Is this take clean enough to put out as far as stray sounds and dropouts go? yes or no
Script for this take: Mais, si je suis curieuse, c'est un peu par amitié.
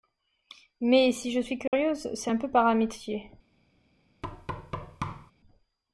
no